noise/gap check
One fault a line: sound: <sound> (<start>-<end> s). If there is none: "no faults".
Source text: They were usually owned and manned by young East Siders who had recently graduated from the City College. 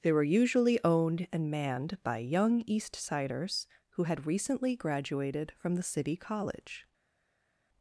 no faults